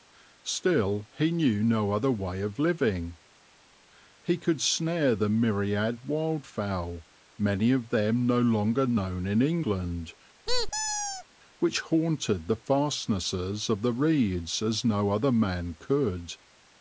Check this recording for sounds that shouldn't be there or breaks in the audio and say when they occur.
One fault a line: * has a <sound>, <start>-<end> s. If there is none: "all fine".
* has a squeak, 10.5-11.2 s